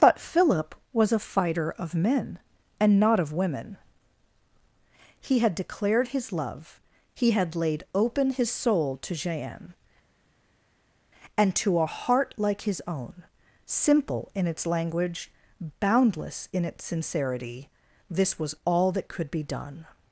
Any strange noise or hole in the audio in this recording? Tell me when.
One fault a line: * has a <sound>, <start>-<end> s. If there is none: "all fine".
all fine